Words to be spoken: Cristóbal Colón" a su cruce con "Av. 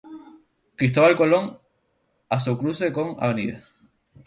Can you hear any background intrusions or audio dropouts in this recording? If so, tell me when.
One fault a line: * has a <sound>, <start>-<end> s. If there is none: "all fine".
all fine